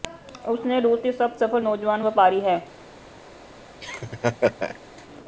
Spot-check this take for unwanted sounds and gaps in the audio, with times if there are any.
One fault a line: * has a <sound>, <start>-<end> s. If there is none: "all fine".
* has a laugh, 3.8-4.8 s